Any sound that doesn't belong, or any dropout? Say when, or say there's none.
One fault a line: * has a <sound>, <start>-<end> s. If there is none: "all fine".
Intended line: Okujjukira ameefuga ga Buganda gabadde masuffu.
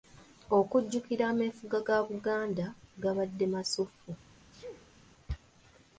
* has a sneeze, 4.5-5.0 s